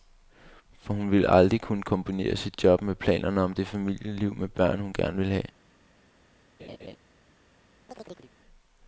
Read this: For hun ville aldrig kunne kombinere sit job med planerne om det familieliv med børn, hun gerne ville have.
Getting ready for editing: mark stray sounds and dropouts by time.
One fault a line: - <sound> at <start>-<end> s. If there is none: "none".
- laugh at 6.6-7.0 s
- chirp at 7.9-8.3 s